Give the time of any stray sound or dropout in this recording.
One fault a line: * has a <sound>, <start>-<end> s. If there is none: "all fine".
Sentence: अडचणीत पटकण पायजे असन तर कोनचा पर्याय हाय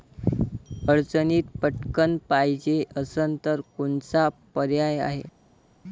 all fine